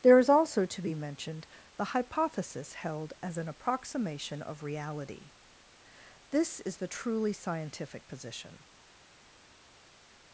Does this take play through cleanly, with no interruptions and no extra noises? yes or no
yes